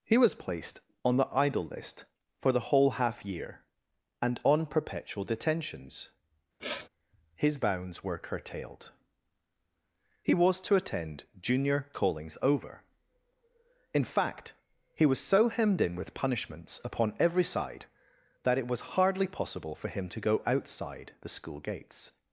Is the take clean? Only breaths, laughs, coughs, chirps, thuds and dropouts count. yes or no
no